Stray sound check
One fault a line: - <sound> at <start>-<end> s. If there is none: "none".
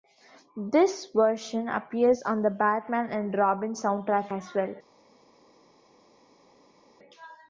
none